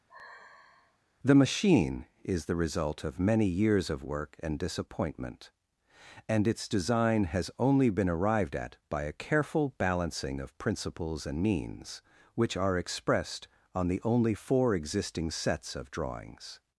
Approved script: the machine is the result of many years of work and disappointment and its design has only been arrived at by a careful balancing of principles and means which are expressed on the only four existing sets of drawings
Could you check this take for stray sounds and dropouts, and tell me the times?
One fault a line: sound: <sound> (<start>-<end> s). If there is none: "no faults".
sound: sigh (0.1-1.0 s)